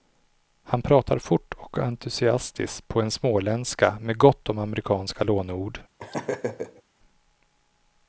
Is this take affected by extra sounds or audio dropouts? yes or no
yes